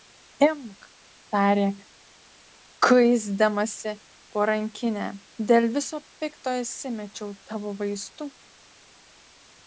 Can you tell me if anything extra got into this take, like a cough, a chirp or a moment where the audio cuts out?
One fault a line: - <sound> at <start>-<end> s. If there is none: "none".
none